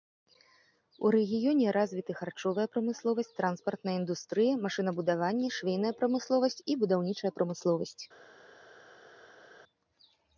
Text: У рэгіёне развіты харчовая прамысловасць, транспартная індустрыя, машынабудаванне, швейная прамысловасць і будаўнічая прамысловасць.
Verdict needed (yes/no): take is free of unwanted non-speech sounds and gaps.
yes